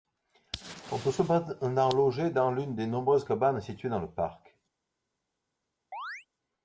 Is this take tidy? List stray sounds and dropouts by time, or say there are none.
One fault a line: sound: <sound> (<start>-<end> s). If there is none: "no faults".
sound: chirp (5.9-6.3 s)